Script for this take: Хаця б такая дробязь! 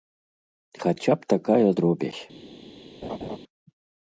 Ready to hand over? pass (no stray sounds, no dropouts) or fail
fail